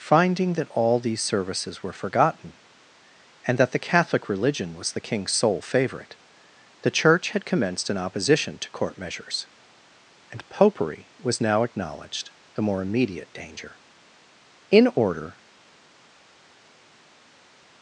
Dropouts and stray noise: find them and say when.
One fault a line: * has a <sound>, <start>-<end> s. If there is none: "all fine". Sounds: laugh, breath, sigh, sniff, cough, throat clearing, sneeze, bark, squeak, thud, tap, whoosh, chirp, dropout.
all fine